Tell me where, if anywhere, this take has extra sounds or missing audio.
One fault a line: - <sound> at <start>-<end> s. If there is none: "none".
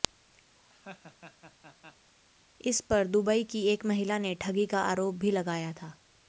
- laugh at 0.6-2.1 s